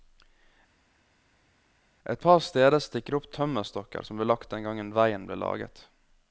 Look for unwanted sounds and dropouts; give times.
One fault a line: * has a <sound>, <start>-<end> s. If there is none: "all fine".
all fine